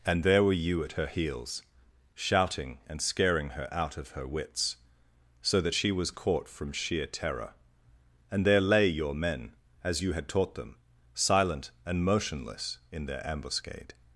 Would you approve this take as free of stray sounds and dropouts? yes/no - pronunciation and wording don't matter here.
yes